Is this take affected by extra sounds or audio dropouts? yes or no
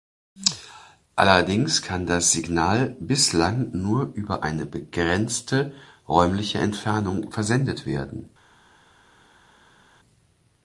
no